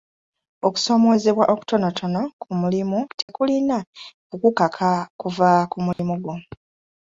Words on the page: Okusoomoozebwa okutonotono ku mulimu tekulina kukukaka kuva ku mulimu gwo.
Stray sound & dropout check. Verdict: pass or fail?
fail